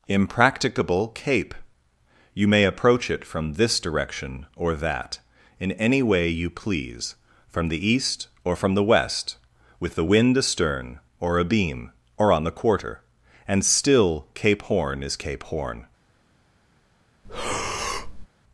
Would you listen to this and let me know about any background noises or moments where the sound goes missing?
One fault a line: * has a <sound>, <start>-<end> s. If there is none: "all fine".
* has a breath, 17.2-18.3 s